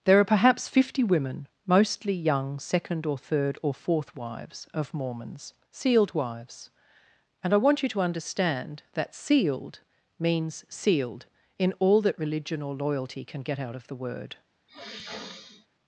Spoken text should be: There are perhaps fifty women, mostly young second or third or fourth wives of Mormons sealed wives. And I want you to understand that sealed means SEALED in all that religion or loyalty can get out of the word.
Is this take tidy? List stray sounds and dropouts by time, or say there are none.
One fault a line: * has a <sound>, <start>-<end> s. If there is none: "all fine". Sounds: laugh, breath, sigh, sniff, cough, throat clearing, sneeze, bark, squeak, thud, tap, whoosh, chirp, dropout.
* has a sniff, 14.7-15.7 s